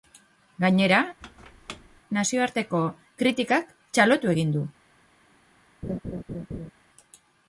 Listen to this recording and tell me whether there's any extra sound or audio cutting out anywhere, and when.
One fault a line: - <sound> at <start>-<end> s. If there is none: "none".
- squeak at 1.2-2.0 s
- laugh at 5.8-6.7 s